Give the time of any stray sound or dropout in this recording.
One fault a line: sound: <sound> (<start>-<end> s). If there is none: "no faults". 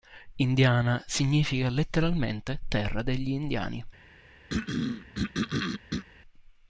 sound: throat clearing (4.5-6.0 s)